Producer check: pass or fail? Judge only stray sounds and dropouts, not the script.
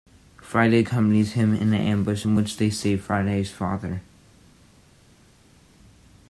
pass